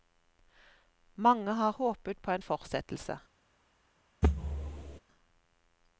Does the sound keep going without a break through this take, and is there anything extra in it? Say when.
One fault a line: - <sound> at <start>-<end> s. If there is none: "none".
- thud at 4.2-5.0 s